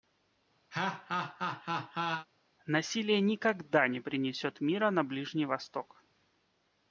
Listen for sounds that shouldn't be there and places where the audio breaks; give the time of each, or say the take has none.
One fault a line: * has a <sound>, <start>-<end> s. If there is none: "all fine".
* has a laugh, 0.7-2.3 s